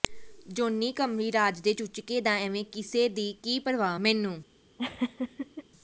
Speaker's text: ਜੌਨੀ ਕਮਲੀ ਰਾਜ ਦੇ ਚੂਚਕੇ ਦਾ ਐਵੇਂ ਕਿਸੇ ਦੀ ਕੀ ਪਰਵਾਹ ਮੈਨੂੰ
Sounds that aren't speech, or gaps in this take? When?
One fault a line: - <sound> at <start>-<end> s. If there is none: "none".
- laugh at 4.8-5.6 s